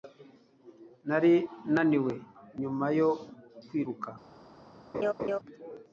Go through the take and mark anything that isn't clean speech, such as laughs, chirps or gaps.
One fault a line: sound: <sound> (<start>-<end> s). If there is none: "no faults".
sound: laugh (4.9-5.4 s)